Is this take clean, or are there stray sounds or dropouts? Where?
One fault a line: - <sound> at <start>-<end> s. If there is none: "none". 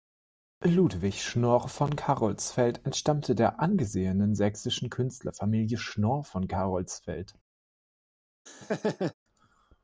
- laugh at 8.5-9.1 s